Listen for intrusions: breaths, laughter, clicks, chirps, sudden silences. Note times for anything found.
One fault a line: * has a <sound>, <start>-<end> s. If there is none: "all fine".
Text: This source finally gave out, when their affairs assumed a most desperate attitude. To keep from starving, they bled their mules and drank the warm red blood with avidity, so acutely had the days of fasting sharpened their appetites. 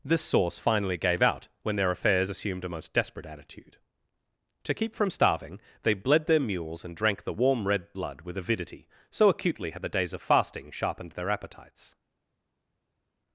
all fine